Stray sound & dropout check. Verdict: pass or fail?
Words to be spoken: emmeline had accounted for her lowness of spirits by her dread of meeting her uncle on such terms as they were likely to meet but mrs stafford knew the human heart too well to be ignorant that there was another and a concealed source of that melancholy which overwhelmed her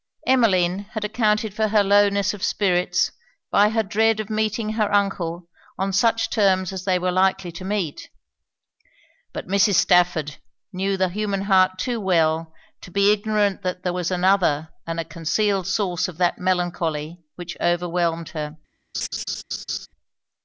fail